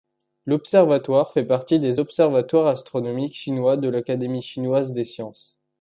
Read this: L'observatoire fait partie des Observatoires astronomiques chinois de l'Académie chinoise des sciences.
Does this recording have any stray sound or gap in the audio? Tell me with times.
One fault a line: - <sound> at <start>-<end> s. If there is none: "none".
none